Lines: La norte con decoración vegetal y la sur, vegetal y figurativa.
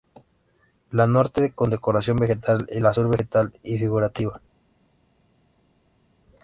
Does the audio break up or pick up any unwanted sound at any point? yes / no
no